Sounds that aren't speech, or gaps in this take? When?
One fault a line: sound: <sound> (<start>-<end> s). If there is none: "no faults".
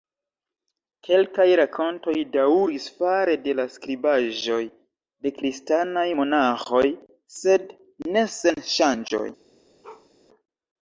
sound: bark (9.8-10.1 s)